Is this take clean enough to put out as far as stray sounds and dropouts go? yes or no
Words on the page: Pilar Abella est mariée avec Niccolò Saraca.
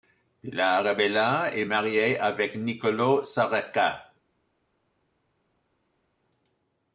yes